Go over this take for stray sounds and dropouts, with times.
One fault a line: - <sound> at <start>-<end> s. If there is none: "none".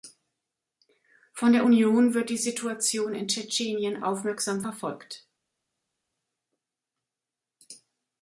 none